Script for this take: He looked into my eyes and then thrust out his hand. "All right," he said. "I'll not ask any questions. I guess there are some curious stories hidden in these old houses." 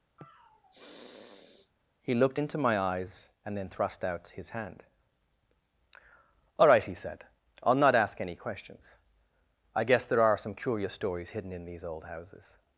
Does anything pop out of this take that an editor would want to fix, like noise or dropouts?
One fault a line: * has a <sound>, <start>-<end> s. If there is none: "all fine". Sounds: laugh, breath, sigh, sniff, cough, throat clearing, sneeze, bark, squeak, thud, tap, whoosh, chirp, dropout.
* has a sniff, 0.2-1.7 s